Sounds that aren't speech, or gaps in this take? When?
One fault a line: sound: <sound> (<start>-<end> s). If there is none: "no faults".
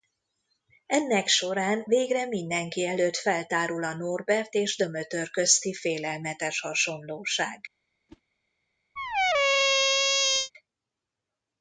sound: whoosh (8.1-8.2 s)
sound: squeak (9.0-10.5 s)